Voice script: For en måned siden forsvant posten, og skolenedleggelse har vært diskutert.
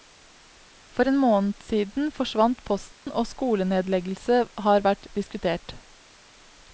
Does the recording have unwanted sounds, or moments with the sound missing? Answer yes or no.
yes